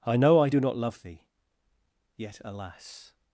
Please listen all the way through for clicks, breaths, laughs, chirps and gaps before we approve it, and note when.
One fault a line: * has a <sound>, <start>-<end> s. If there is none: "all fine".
all fine